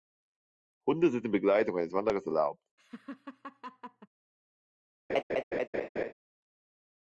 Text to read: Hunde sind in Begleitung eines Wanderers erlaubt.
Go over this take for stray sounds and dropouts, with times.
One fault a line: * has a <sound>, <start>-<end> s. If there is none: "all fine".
* has a laugh, 2.8-4.1 s
* has a laugh, 5.1-6.1 s